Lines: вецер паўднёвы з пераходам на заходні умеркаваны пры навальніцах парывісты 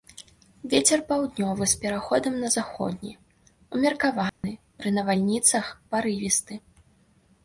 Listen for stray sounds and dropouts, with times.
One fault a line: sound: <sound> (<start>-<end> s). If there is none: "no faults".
sound: dropout (4.3-4.4 s)